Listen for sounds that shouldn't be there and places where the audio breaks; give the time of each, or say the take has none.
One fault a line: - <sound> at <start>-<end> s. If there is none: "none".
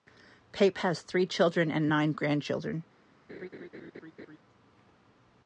- laugh at 3.3-4.4 s